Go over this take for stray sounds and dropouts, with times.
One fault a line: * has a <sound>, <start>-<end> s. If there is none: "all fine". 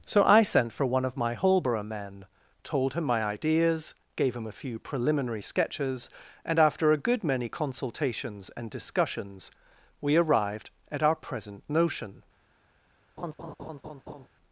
* has a laugh, 13.2-14.3 s